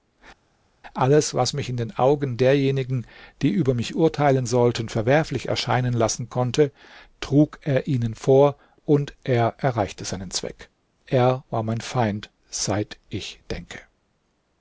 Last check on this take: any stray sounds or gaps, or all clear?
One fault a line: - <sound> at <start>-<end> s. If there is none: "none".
none